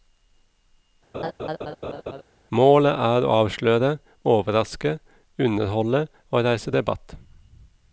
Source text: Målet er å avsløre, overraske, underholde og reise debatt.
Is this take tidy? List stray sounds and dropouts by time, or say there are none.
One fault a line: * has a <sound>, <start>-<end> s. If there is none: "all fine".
* has a laugh, 1.1-2.2 s